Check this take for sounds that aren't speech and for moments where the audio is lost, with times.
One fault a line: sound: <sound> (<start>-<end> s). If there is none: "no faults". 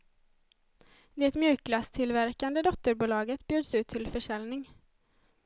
no faults